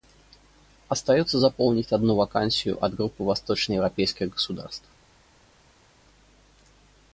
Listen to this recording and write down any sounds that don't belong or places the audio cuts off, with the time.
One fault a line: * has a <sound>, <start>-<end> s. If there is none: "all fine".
all fine